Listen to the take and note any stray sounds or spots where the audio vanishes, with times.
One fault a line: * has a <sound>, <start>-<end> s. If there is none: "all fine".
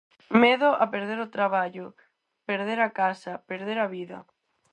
all fine